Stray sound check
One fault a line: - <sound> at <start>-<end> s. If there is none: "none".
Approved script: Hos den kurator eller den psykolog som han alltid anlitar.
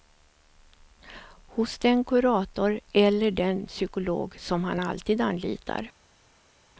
none